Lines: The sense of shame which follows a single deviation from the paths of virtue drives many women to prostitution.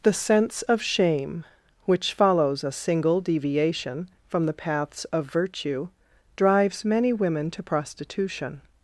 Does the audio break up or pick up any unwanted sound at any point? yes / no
no